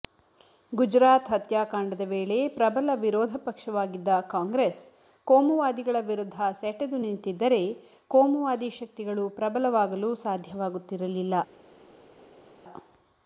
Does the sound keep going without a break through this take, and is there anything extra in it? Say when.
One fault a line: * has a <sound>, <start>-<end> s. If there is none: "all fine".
all fine